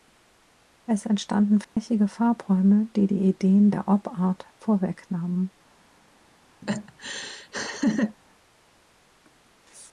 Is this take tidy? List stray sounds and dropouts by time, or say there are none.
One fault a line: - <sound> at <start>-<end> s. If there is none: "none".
- dropout at 1.6-1.8 s
- laugh at 6.6-8.2 s